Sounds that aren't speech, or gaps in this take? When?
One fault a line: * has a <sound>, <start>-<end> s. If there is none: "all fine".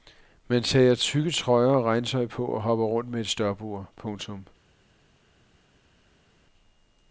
all fine